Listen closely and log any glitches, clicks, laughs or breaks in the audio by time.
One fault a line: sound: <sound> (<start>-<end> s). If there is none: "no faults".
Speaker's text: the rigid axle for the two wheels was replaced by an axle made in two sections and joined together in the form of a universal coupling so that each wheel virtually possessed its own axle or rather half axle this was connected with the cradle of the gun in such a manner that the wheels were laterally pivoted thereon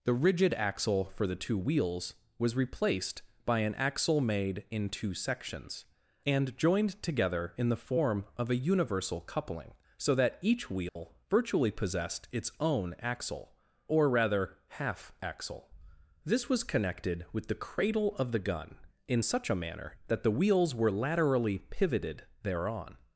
sound: dropout (10.9-11.0 s)